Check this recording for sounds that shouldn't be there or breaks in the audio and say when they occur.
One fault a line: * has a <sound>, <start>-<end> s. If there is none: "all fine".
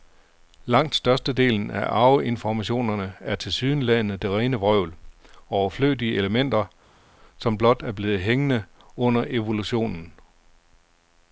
all fine